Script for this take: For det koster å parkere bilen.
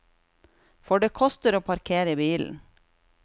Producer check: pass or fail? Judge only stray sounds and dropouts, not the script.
pass